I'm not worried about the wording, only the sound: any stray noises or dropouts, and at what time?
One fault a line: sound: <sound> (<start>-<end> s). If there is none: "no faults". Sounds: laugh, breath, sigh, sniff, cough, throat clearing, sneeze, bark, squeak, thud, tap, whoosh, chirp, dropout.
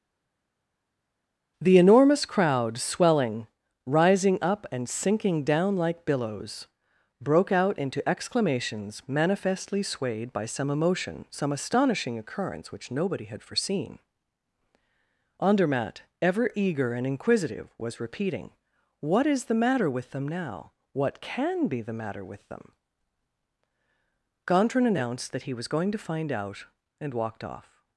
no faults